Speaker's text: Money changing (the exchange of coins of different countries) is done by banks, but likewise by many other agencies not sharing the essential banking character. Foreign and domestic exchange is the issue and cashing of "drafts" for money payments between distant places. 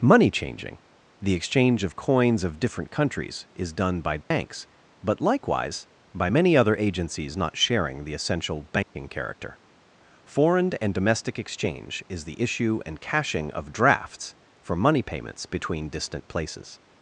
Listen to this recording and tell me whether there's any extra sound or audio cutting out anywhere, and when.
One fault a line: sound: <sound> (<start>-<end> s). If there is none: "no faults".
sound: dropout (4.2-4.3 s)
sound: dropout (8.8-9.0 s)